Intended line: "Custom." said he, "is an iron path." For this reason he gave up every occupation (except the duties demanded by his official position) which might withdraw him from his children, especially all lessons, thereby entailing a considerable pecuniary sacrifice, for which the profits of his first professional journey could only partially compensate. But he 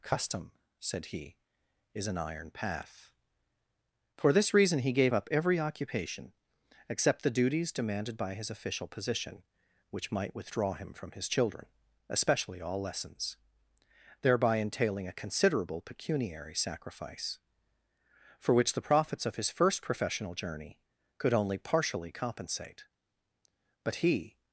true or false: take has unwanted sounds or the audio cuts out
false